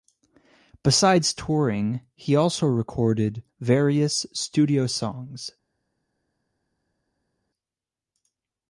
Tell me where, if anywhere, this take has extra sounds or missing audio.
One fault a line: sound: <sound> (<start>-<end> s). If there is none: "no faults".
no faults